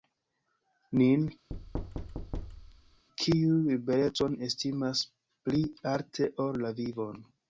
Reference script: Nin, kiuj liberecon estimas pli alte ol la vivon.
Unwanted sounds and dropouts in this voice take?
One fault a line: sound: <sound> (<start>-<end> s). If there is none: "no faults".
sound: thud (1.5-3.0 s)